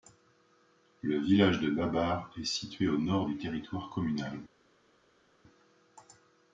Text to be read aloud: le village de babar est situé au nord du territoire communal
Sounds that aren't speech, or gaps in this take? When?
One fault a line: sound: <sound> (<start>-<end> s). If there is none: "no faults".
no faults